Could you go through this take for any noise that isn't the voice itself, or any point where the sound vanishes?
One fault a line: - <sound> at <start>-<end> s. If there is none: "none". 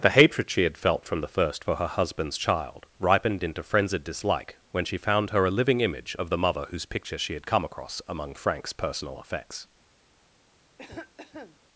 - cough at 10.8-11.6 s